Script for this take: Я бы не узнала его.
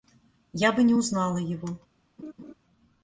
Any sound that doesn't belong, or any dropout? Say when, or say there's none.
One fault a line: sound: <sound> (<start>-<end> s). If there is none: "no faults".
sound: laugh (2.2-2.5 s)